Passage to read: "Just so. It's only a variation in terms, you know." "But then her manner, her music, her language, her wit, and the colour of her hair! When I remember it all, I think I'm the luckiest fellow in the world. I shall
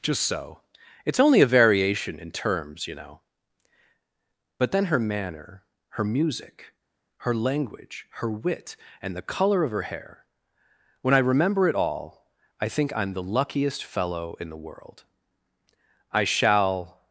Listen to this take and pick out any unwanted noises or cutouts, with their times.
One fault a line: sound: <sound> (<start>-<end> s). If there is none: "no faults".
no faults